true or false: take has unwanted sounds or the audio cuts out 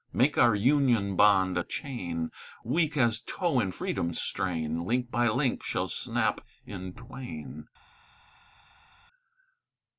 false